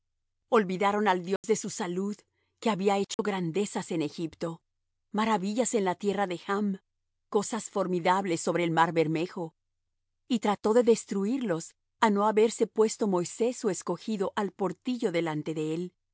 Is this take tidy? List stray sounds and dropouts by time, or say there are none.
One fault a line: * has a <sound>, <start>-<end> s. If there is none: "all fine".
* has a dropout, 1.4-1.4 s
* has a dropout, 3.1-3.2 s